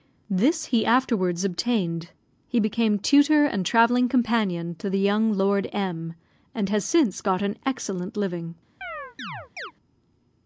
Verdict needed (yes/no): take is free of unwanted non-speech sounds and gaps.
no